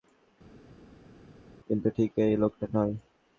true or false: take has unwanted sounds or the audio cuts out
false